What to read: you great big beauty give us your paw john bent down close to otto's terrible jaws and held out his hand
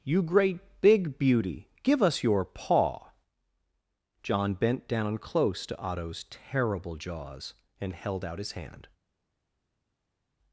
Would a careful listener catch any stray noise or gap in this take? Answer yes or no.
no